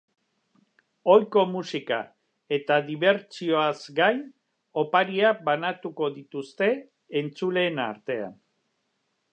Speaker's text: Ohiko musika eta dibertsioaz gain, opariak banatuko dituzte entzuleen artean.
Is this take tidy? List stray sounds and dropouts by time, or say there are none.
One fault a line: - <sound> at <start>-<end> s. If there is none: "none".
none